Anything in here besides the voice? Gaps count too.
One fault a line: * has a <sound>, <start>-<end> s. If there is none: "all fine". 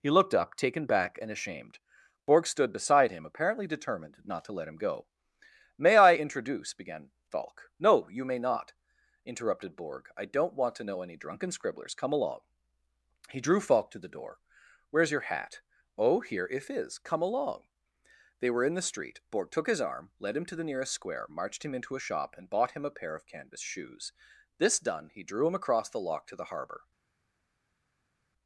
all fine